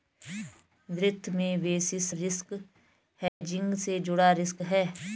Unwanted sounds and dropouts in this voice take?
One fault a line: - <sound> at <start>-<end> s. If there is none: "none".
- dropout at 3.3-3.4 s